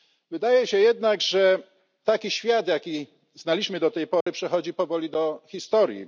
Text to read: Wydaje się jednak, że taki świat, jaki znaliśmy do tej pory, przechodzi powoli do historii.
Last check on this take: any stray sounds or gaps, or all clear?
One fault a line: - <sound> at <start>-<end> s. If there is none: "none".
- dropout at 4.2-4.3 s